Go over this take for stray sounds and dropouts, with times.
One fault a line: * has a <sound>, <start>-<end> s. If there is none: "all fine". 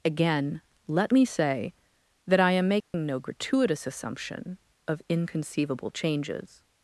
* has a dropout, 2.8-2.9 s